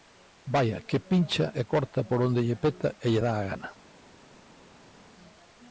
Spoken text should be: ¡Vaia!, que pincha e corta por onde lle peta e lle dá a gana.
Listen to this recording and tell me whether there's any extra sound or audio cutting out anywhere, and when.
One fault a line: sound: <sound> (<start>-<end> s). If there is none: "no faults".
no faults